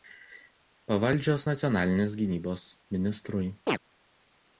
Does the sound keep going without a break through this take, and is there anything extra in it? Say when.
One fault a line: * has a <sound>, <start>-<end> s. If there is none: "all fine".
* has a chirp, 3.7-3.8 s